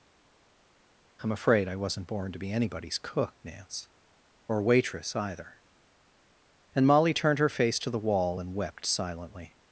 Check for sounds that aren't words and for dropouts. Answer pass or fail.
pass